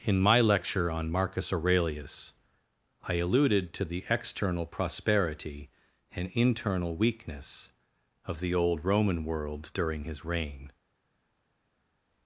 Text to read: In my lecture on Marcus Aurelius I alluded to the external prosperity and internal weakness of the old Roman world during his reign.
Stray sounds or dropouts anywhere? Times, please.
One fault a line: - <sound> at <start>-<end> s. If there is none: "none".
none